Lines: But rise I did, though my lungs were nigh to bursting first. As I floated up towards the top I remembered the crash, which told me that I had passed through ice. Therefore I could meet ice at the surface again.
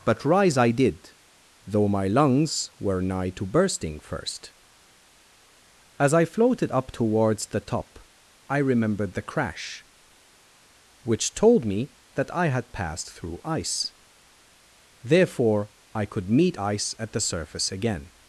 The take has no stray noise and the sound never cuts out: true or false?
true